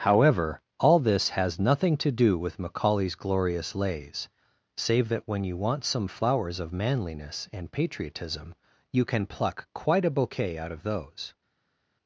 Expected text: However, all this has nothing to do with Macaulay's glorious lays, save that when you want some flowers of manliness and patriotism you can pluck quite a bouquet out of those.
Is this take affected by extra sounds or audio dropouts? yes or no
no